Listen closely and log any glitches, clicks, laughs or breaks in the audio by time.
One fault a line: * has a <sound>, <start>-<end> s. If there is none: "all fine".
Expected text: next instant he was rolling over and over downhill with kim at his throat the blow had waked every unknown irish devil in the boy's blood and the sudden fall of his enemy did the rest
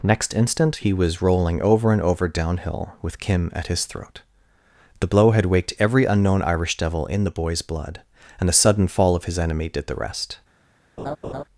* has a laugh, 11.0-11.4 s